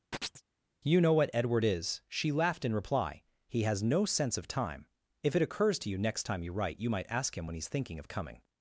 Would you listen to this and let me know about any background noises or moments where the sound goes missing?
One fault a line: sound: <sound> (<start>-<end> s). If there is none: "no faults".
sound: chirp (0.1-0.4 s)